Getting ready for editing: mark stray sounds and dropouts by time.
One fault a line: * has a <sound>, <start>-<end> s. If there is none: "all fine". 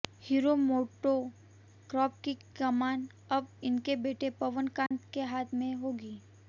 * has a dropout, 4.9-4.9 s